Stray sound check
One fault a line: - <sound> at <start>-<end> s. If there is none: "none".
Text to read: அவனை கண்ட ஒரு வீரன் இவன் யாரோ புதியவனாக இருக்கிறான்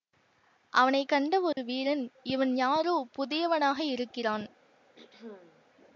- dropout at 1.5-1.6 s
- throat clearing at 5.0-5.7 s